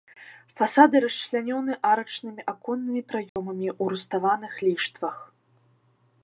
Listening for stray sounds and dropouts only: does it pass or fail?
fail